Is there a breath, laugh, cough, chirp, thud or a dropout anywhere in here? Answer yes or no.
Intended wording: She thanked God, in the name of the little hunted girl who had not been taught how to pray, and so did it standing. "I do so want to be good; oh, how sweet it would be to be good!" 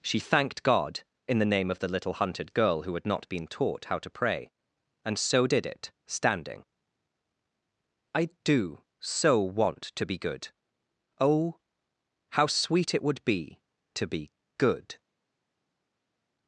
no